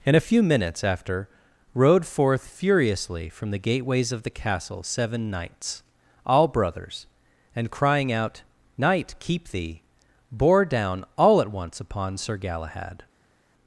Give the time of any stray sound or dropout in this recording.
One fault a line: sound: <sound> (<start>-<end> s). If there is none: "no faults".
no faults